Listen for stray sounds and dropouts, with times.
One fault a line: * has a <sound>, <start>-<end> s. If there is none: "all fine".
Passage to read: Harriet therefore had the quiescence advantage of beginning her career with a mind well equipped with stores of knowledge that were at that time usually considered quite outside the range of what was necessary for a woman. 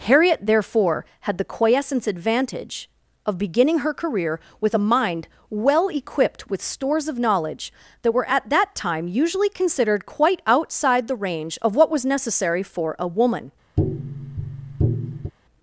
* has a tap, 13.8-15.3 s